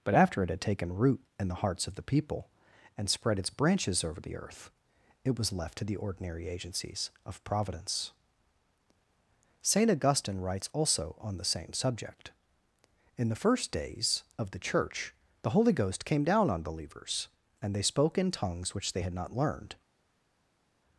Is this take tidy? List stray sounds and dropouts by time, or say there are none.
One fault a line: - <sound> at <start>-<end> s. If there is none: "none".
none